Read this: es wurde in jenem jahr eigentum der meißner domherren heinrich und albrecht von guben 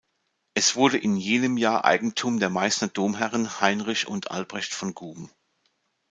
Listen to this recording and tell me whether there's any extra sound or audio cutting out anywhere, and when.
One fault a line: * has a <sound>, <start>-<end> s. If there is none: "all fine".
all fine